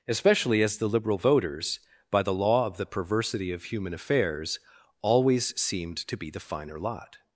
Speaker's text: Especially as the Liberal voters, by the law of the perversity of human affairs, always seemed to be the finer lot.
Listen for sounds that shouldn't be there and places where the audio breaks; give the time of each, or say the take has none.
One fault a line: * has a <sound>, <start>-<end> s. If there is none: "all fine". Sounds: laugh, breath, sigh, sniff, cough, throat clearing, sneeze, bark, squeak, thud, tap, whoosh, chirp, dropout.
all fine